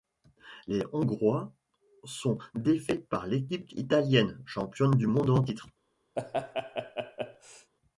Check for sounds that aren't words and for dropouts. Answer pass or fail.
fail